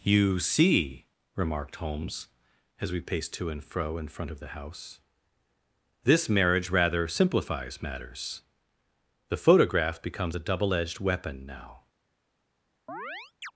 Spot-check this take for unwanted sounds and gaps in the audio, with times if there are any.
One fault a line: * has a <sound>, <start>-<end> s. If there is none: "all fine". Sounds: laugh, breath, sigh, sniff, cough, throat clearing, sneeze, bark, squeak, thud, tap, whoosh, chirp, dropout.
* has a chirp, 12.9-13.5 s